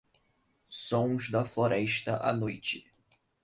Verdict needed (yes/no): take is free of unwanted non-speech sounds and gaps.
yes